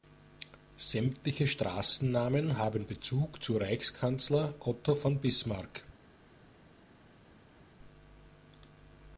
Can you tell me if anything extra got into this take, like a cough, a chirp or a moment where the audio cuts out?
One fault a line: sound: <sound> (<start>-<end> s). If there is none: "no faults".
no faults